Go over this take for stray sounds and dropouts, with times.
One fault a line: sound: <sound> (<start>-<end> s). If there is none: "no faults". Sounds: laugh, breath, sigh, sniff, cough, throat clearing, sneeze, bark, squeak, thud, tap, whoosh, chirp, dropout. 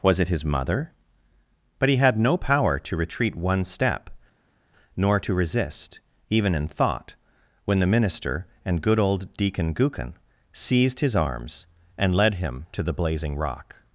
no faults